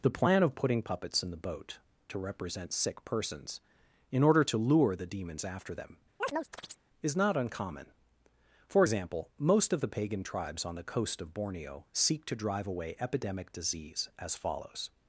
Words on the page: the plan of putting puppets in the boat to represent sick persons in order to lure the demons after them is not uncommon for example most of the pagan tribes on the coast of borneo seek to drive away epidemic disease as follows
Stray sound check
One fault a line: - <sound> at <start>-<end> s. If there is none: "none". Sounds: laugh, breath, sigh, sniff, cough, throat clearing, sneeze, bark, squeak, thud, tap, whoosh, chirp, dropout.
- chirp at 6.2-6.8 s